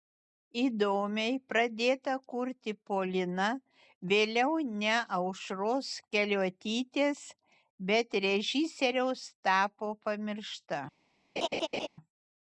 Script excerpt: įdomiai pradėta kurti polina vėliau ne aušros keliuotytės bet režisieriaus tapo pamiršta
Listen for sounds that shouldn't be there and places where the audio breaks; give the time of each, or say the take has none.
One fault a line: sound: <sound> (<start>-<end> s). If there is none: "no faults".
sound: laugh (11.4-11.9 s)